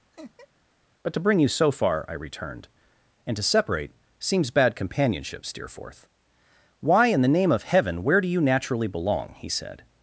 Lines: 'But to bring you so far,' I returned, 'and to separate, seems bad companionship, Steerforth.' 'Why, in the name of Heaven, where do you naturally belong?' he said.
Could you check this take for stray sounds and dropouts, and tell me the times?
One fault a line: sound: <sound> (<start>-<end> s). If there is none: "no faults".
sound: laugh (0.1-0.5 s)